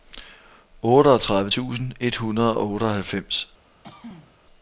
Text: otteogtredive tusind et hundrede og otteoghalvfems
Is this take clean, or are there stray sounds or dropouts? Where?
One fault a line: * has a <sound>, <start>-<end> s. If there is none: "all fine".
* has a throat clearing, 3.8-4.4 s